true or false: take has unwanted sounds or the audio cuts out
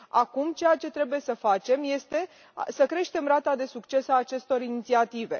false